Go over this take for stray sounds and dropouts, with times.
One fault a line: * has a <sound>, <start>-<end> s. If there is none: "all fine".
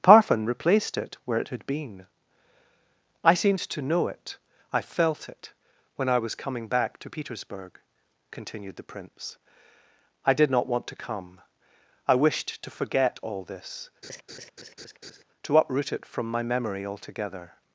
* has a laugh, 14.0-15.2 s